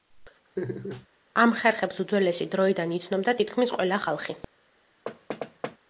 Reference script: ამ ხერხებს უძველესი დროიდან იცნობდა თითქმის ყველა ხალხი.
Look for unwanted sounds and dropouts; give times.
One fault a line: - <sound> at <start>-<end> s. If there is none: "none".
- laugh at 0.6-1.1 s
- thud at 5.1-5.8 s